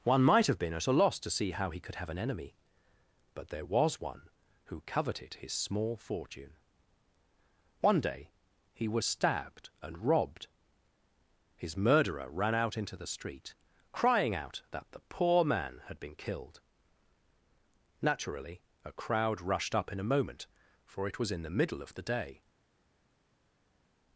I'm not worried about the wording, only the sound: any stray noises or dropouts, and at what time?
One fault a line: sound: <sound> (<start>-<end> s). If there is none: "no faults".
no faults